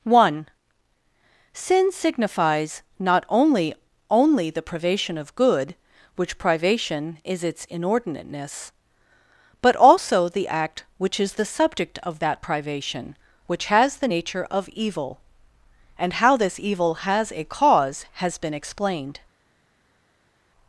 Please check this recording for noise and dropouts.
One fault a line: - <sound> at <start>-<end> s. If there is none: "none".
none